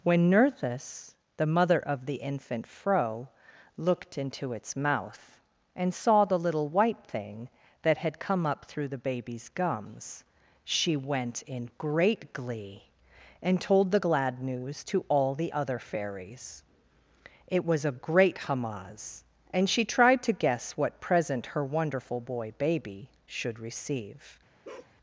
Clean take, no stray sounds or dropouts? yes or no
no